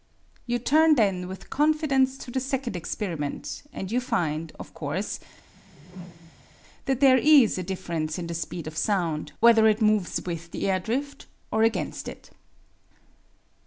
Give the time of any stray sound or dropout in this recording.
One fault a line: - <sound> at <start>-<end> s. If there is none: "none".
- whoosh at 5.5-6.6 s